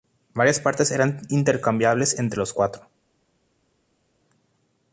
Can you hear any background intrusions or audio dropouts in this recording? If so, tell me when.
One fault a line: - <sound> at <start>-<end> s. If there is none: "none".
none